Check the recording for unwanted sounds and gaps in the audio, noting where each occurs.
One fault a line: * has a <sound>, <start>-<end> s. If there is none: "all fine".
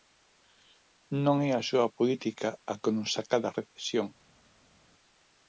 all fine